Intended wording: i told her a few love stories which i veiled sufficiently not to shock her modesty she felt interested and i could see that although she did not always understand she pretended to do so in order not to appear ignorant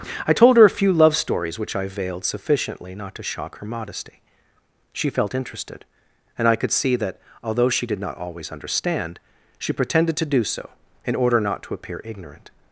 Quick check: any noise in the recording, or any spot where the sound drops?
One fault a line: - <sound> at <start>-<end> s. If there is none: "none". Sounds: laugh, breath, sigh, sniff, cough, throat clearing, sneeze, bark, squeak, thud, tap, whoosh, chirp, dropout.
none